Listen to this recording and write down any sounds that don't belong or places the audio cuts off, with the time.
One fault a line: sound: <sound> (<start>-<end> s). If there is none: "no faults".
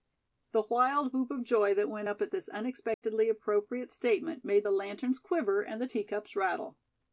sound: dropout (2.9-3.0 s)